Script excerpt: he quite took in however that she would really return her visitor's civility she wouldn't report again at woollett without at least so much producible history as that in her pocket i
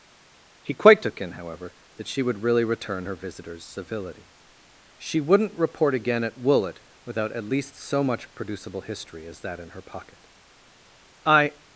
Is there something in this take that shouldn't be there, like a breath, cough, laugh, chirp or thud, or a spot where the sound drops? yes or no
no